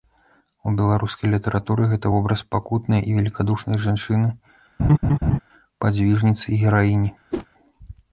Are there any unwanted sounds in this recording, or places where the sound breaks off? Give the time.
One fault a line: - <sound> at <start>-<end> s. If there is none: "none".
- laugh at 4.8-5.4 s
- whoosh at 7.3-7.5 s